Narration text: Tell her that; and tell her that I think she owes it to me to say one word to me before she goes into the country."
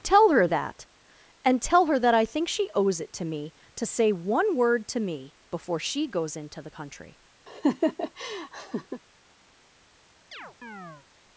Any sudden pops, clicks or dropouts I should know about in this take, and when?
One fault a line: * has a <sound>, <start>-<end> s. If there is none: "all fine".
* has a laugh, 7.5-9.0 s
* has a chirp, 10.3-11.1 s